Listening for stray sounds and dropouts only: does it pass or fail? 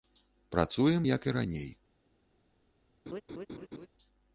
fail